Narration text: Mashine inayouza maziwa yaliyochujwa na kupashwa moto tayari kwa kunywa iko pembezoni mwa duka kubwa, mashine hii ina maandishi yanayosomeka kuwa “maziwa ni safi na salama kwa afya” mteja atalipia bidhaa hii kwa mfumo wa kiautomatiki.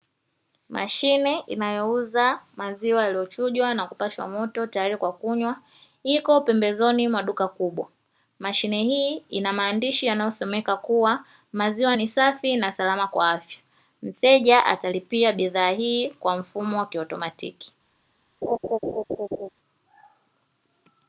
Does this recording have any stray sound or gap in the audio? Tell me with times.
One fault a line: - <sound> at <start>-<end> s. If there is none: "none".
- laugh at 18.4-19.5 s